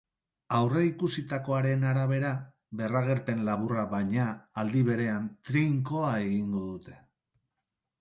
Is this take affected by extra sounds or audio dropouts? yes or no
no